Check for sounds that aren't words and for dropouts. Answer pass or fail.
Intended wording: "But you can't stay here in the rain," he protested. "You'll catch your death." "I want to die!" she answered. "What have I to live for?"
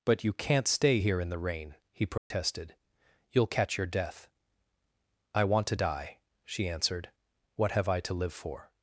fail